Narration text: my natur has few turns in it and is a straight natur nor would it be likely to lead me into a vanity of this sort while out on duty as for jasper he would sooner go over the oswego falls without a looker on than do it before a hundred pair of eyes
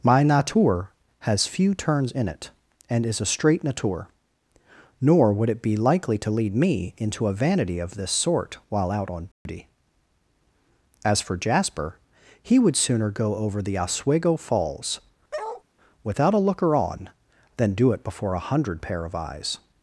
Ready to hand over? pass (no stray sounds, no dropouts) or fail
fail